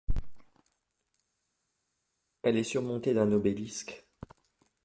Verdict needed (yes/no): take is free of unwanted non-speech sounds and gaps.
yes